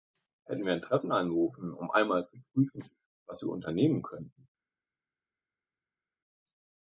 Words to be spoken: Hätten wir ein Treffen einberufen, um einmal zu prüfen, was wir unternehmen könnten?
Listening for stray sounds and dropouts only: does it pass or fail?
pass